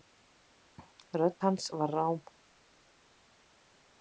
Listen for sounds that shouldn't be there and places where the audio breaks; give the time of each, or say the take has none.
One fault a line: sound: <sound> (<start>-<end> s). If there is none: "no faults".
no faults